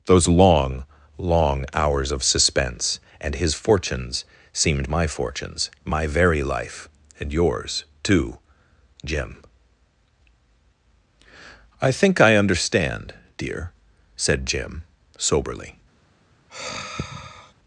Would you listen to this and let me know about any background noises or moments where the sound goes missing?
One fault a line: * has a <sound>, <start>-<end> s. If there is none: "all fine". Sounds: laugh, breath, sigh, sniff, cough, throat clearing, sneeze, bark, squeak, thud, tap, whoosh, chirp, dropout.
* has a sigh, 16.5-17.5 s